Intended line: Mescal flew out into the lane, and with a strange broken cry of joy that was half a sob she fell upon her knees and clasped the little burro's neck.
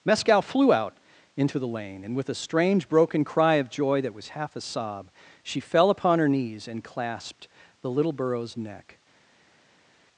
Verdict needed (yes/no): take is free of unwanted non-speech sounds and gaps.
yes